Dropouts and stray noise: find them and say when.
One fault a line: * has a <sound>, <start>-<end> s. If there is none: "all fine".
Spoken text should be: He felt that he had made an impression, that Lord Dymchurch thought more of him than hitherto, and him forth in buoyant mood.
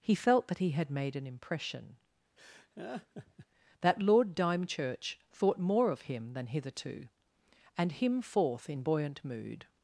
* has a laugh, 2.4-3.5 s